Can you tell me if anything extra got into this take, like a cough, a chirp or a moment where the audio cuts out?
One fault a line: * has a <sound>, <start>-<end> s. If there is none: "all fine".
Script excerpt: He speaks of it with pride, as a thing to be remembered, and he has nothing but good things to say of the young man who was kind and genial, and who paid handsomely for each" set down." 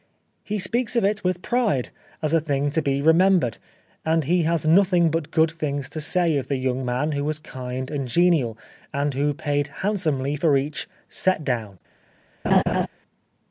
* has a laugh, 12.4-12.9 s